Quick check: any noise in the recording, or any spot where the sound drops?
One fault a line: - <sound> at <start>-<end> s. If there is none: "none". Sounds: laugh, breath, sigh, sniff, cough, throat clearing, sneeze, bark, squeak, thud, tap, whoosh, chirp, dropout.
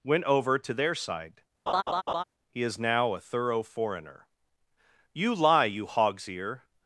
- laugh at 1.7-2.2 s